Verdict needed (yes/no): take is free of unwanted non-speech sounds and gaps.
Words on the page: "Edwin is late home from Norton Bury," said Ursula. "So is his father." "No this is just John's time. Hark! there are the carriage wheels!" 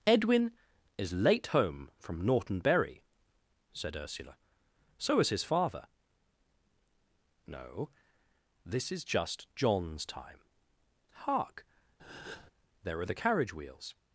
no